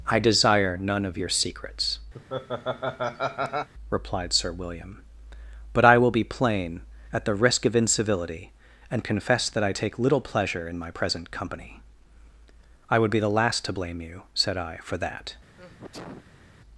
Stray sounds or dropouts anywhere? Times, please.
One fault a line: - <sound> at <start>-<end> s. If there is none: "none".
- laugh at 2.1-3.7 s
- sneeze at 15.6-16.5 s